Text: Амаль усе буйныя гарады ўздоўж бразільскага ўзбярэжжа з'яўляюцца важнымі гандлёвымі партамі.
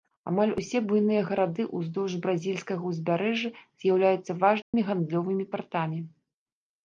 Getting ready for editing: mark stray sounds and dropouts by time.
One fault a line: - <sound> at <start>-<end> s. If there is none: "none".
- dropout at 4.6-4.7 s